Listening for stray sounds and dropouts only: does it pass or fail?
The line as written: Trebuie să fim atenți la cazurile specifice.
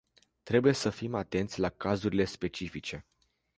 pass